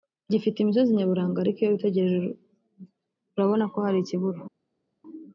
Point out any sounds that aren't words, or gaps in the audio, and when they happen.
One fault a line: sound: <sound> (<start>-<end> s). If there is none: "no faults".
no faults